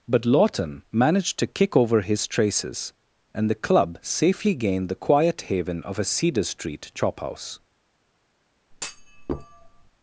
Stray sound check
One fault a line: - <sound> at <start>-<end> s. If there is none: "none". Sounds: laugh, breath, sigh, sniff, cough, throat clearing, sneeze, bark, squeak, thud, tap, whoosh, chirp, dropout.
- thud at 8.7-9.9 s